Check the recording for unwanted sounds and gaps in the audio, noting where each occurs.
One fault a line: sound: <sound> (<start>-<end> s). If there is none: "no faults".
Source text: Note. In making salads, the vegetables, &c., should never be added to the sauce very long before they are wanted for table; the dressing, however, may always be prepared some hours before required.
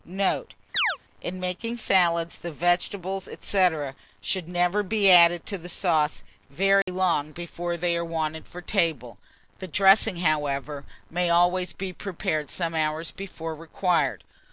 sound: chirp (0.7-1.0 s)
sound: dropout (6.8-6.9 s)